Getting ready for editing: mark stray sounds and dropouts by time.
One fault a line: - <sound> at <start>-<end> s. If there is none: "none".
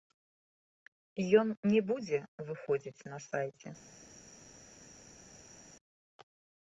none